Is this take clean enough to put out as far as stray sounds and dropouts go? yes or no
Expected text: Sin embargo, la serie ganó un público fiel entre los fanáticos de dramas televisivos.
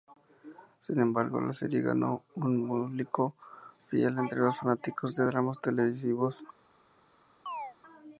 no